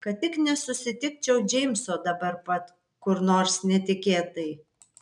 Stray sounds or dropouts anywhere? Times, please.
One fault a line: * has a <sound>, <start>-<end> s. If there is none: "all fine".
all fine